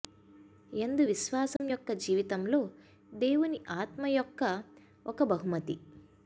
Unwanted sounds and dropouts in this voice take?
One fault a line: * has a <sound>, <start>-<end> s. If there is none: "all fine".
* has a dropout, 1.6-1.6 s